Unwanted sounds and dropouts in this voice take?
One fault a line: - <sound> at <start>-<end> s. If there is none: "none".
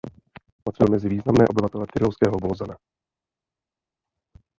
none